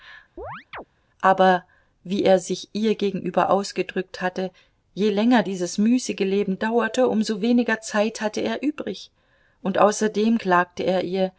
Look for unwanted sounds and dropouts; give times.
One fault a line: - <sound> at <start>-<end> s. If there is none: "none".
- chirp at 0.4-0.8 s